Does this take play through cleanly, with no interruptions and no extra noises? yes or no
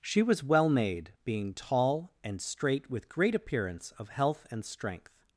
yes